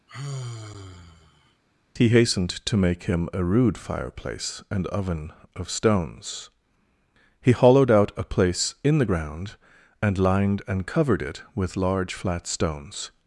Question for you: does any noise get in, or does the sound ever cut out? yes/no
yes